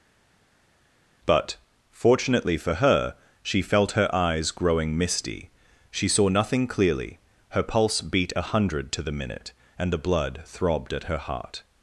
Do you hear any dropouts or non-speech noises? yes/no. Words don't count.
no